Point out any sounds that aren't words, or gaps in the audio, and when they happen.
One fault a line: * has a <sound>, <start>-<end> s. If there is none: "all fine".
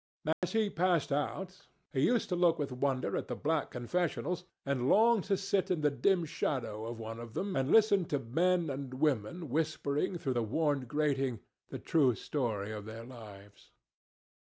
* has a dropout, 0.3-0.4 s